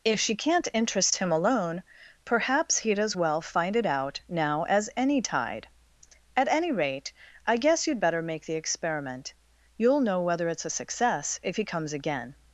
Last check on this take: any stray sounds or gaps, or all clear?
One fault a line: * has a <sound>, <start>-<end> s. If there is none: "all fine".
all fine